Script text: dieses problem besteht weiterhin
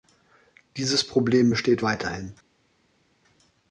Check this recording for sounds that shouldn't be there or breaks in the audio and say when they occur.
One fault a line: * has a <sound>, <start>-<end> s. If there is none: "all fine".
all fine